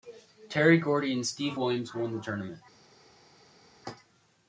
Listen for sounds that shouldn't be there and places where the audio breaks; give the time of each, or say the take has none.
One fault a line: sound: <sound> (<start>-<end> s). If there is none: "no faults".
no faults